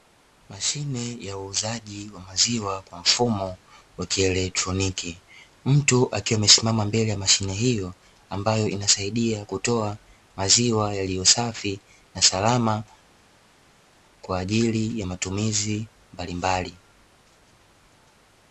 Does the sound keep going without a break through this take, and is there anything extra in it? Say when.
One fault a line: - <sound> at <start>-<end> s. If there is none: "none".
none